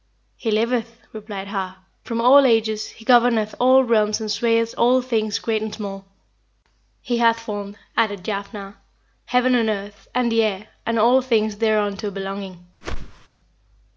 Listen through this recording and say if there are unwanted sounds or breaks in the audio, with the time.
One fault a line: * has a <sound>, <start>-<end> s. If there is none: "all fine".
* has a whoosh, 12.8-13.3 s